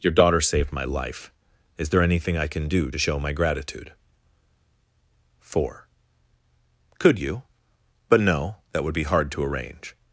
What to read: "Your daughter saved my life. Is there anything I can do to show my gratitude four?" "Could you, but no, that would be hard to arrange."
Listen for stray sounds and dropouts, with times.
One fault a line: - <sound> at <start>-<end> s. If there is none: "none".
none